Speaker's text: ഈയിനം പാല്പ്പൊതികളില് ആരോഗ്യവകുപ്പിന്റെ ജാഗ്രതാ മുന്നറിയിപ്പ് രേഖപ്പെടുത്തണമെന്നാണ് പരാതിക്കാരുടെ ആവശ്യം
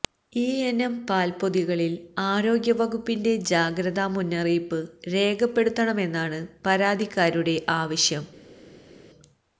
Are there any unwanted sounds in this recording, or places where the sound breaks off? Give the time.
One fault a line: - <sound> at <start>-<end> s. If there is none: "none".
none